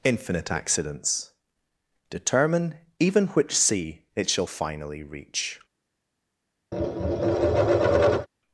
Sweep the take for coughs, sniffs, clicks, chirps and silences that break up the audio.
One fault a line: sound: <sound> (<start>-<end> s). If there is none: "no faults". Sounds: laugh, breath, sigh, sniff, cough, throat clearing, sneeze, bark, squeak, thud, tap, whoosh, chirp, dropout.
sound: tap (6.7-8.3 s)